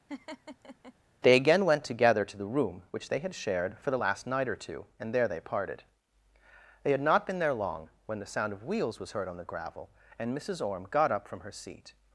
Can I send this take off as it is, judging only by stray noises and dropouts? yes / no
no